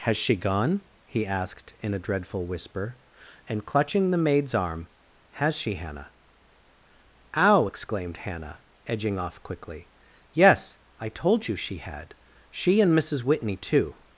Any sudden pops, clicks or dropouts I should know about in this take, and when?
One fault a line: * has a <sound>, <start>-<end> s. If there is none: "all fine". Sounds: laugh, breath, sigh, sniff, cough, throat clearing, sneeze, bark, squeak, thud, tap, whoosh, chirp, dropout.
all fine